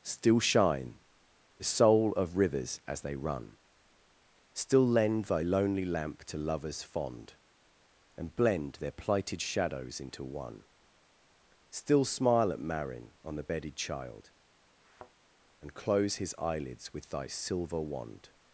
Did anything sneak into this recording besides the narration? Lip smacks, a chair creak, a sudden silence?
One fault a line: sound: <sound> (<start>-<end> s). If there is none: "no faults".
sound: thud (14.8-15.1 s)